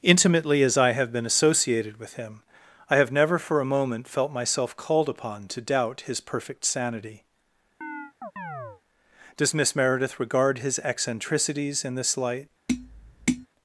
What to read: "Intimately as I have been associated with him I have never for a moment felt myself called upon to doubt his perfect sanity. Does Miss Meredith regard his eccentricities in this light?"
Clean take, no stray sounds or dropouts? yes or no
no